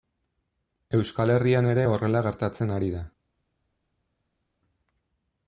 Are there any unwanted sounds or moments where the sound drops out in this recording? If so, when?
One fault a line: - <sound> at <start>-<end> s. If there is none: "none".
none